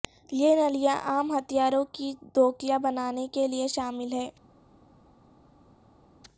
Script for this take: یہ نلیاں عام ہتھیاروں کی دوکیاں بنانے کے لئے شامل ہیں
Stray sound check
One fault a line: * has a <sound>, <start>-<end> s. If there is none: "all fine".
all fine